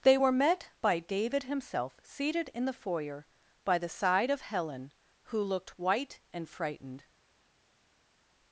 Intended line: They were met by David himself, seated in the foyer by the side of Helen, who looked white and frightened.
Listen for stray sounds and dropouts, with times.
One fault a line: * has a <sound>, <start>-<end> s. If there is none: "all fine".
all fine